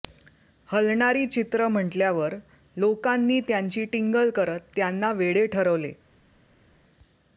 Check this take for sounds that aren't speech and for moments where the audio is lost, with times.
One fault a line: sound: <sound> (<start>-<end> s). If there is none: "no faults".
no faults